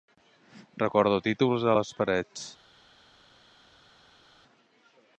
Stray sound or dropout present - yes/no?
no